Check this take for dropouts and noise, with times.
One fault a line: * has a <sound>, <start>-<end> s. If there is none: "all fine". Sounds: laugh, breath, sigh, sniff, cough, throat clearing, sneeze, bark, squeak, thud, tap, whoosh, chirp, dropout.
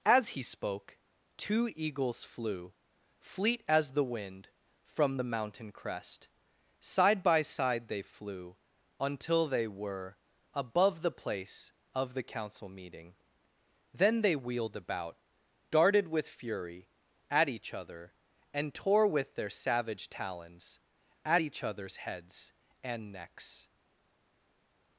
all fine